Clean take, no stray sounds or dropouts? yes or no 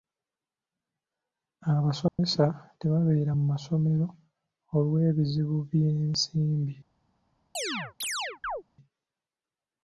no